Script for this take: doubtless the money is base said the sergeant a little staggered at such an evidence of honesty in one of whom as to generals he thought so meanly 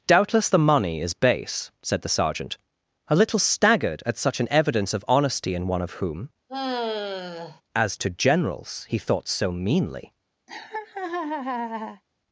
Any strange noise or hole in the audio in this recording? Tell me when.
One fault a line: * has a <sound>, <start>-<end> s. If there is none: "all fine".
* has a sigh, 6.5-7.6 s
* has a laugh, 10.5-12.0 s